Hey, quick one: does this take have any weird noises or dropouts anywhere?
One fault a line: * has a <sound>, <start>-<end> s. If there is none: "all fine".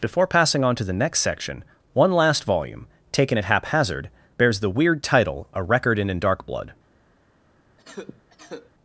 * has a cough, 7.8-8.7 s